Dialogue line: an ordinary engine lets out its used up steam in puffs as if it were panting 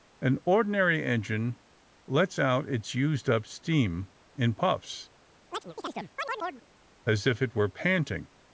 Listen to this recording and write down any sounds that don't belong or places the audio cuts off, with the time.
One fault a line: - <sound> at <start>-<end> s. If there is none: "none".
- chirp at 5.5-6.7 s